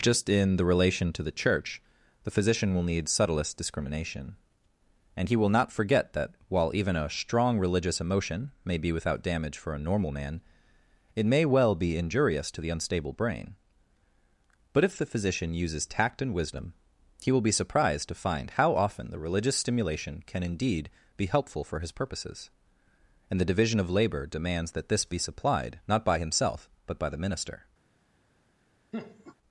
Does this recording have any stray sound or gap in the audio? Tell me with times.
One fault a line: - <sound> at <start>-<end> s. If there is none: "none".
- laugh at 28.9-29.4 s